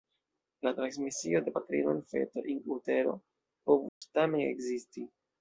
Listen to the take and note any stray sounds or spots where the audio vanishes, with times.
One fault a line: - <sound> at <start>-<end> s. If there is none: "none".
- dropout at 3.9-4.0 s